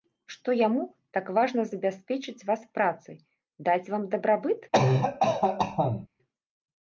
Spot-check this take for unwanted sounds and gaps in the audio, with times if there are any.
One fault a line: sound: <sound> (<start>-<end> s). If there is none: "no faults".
sound: cough (4.7-6.1 s)